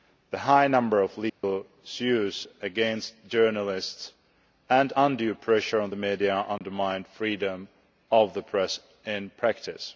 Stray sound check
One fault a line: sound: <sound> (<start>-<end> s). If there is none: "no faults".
sound: dropout (1.3-1.4 s)
sound: dropout (6.6-6.6 s)